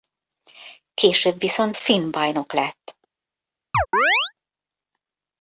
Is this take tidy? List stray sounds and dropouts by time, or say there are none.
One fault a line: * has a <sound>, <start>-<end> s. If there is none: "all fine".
* has a chirp, 3.7-4.3 s